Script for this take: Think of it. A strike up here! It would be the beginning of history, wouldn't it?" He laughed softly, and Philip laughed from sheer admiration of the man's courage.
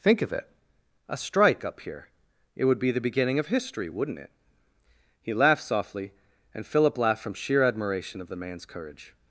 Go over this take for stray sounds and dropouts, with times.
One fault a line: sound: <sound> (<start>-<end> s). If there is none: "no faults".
no faults